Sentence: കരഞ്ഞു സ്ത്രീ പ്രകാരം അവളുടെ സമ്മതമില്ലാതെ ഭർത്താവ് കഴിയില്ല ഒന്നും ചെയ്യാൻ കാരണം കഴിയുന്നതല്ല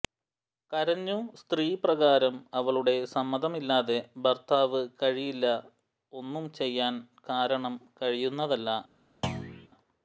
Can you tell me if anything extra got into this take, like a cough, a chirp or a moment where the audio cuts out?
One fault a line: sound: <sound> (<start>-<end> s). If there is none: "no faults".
sound: thud (9.2-9.7 s)